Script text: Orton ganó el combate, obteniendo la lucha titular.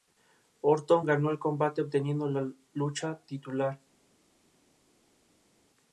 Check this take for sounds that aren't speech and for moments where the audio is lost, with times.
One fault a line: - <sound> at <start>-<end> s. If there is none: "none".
none